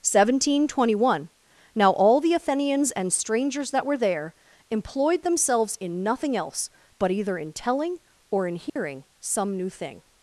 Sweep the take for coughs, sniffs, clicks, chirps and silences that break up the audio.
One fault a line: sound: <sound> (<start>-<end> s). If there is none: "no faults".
sound: dropout (8.7-8.8 s)